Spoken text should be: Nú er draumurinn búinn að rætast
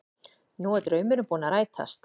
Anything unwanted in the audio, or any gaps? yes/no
no